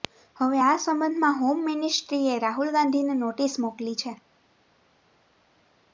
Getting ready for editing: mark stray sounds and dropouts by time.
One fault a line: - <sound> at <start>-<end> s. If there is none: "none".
none